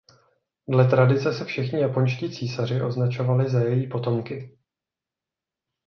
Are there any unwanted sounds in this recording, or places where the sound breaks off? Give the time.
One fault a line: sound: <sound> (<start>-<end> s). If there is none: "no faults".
no faults